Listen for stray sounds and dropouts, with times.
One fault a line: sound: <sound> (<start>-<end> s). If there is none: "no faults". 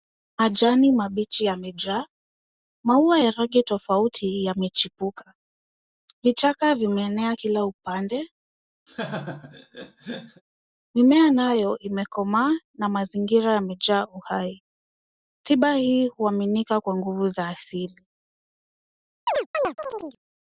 sound: laugh (8.9-10.4 s)
sound: chirp (19.3-20.2 s)